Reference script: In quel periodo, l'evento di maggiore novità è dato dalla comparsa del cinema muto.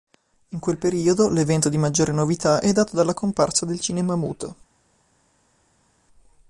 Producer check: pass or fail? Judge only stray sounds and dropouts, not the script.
pass